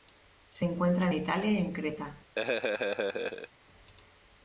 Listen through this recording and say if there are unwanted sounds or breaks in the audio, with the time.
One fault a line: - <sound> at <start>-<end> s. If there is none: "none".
- laugh at 2.4-3.5 s